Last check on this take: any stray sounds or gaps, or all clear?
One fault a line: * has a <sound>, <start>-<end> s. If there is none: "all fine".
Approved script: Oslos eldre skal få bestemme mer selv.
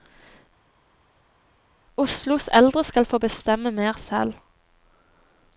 all fine